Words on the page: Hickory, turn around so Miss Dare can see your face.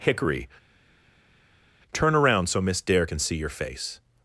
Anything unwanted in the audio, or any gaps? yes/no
no